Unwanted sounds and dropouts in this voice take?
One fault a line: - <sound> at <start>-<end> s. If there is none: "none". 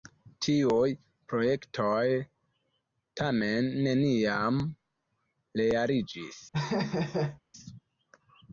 - laugh at 6.5-7.4 s